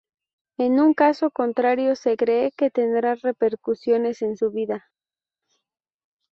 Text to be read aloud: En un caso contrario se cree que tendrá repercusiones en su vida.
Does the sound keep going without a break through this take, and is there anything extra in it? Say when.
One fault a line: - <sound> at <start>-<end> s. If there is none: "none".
none